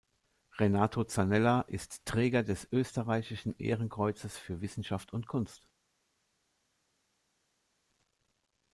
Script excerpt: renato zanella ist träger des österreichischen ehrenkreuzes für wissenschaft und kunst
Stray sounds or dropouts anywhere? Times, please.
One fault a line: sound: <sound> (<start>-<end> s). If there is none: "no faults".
no faults